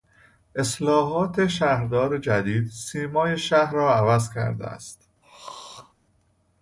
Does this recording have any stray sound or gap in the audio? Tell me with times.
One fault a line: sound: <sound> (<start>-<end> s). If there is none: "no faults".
sound: throat clearing (5.2-5.9 s)